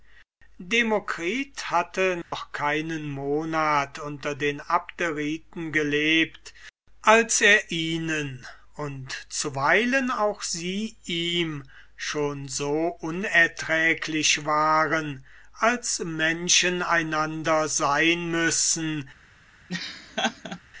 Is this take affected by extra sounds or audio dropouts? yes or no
yes